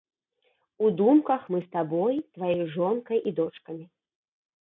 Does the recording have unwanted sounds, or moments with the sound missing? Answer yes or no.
no